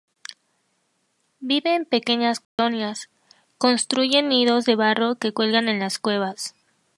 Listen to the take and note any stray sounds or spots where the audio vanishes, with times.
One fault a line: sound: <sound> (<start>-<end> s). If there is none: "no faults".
sound: dropout (2.4-2.6 s)